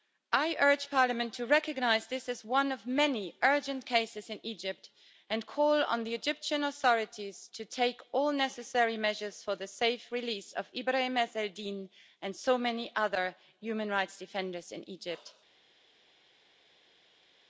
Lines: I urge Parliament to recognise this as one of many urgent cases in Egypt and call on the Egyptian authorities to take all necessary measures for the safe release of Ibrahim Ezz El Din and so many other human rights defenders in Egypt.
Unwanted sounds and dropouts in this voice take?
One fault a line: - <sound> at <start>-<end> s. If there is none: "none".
none